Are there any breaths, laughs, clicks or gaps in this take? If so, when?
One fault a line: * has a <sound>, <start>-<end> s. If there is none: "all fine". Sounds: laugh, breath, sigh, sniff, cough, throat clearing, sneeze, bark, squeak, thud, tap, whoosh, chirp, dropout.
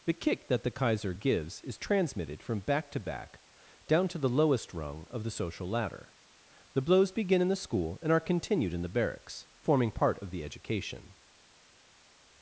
all fine